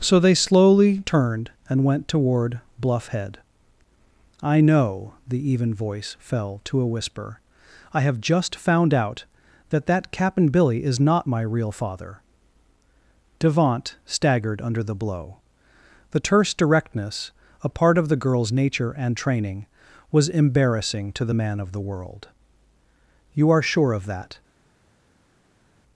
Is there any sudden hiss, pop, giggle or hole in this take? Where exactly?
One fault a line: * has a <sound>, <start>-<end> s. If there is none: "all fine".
all fine